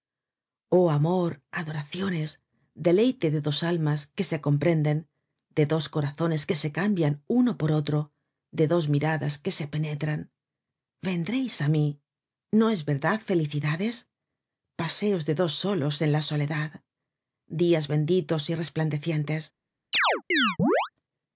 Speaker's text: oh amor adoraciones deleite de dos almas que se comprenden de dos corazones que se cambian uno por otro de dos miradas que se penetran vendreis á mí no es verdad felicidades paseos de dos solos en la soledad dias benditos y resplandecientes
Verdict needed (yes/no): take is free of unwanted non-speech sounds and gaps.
no